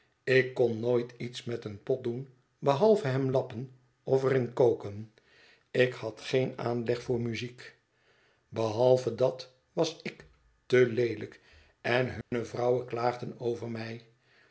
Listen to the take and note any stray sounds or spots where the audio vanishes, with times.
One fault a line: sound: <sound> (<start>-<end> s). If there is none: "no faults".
sound: dropout (12.2-12.3 s)